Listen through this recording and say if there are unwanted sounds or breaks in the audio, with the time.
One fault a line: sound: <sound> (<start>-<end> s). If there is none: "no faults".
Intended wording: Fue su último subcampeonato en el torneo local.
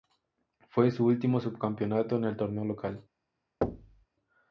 sound: thud (3.6-4.1 s)